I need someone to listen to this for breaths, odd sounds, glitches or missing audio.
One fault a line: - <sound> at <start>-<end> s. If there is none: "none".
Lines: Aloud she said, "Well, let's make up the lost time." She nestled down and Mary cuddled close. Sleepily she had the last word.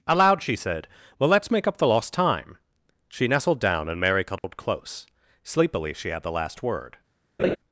- dropout at 4.4-4.4 s
- laugh at 7.4-7.6 s